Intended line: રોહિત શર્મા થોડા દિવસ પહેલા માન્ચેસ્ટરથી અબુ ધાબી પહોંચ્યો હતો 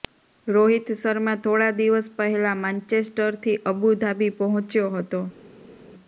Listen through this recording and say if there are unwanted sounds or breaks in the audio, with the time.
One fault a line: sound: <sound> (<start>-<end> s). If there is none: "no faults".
no faults